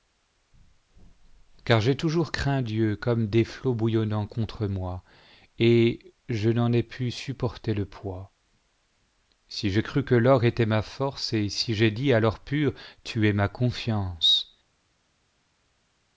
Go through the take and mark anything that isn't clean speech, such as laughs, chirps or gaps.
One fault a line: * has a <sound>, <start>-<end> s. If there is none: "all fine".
all fine